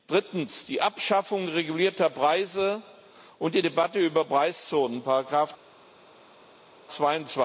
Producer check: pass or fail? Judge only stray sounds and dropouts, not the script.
pass